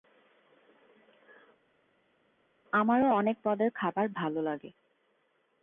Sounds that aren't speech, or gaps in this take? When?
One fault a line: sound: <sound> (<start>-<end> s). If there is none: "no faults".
no faults